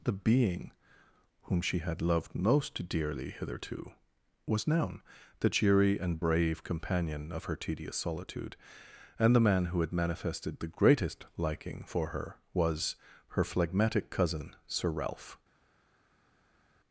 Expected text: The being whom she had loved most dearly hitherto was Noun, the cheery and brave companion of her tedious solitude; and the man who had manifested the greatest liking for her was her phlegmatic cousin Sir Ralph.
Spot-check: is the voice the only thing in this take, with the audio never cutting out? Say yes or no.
yes